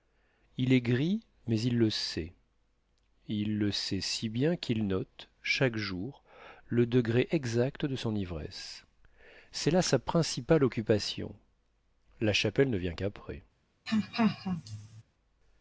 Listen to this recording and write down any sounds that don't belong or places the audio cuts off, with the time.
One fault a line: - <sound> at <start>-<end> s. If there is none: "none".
- laugh at 13.9-15.0 s